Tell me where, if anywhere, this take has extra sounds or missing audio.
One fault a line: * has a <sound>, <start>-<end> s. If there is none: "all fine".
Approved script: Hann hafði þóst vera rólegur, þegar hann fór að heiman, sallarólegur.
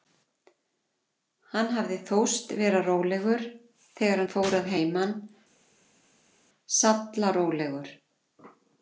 all fine